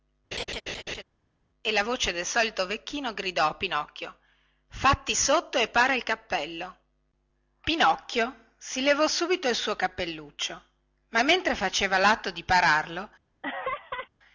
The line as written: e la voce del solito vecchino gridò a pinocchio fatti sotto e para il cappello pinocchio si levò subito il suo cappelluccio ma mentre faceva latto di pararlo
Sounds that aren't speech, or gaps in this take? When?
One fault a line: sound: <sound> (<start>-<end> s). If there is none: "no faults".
sound: laugh (0.3-1.0 s)
sound: laugh (13.4-14.1 s)